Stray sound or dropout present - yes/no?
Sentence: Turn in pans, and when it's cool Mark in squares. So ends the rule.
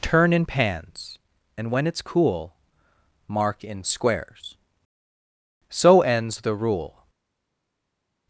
no